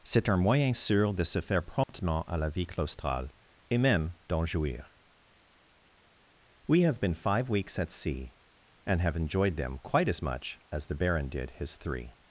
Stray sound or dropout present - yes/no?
yes